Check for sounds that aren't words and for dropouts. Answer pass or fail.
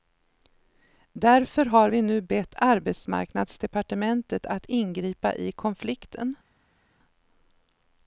pass